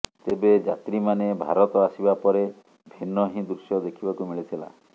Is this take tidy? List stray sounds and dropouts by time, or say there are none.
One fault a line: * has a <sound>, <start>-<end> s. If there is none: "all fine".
all fine